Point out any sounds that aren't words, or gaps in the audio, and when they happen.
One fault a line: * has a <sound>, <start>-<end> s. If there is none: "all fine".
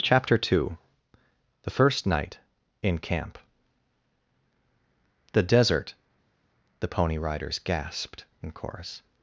all fine